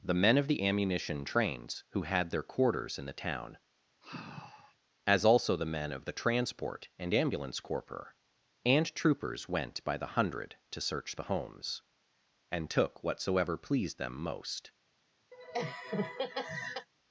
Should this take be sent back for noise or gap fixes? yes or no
yes